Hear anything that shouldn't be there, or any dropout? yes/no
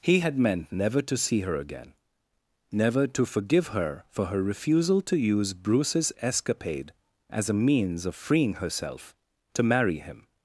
no